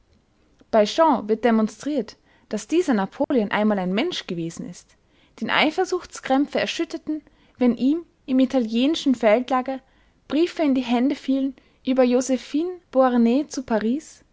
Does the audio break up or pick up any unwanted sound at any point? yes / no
yes